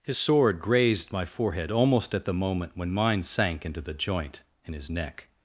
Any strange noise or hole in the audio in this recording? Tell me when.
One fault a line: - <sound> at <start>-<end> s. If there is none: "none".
none